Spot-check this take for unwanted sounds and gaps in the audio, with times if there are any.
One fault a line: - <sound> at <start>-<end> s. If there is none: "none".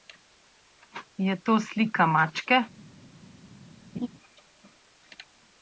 - laugh at 3.9-4.1 s